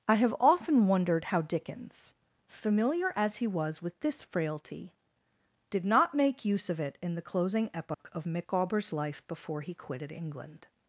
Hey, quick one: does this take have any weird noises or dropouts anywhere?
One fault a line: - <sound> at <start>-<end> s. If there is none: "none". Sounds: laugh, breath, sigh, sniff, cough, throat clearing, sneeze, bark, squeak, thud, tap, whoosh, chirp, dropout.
- dropout at 7.9-8.0 s